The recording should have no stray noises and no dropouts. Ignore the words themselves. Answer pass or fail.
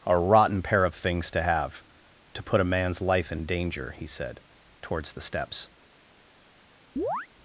fail